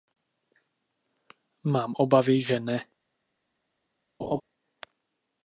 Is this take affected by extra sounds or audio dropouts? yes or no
yes